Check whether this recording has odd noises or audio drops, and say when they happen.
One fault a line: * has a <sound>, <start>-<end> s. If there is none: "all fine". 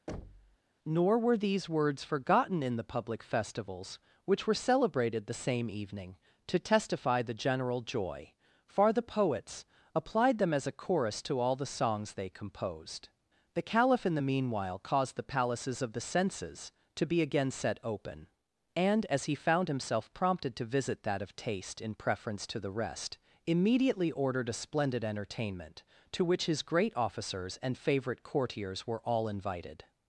* has a thud, 0.1-0.6 s